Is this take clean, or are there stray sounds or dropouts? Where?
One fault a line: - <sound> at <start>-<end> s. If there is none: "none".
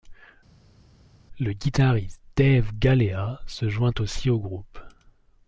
none